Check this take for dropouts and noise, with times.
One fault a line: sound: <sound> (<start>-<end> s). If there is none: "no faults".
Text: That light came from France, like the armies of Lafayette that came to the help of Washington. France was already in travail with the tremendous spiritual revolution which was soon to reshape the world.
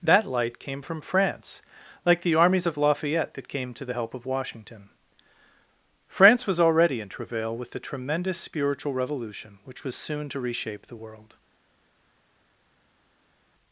no faults